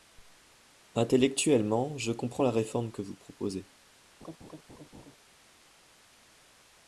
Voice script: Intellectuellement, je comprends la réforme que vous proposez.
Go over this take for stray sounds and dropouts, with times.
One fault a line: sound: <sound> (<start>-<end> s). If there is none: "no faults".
sound: laugh (4.2-5.2 s)